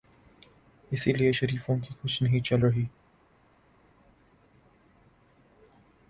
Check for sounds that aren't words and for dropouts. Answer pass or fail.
pass